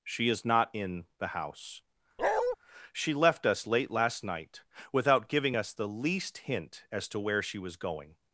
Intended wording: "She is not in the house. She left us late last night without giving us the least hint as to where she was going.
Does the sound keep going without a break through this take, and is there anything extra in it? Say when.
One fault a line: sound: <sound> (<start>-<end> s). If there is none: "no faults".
sound: bark (2.2-2.6 s)